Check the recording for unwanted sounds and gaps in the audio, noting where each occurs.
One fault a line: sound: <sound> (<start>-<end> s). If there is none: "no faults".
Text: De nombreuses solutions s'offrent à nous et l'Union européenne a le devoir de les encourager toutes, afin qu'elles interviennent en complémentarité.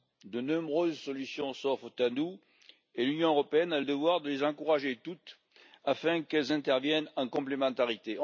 no faults